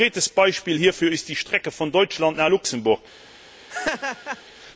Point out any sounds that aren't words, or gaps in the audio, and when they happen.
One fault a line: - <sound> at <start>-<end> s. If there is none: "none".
- laugh at 3.7-4.4 s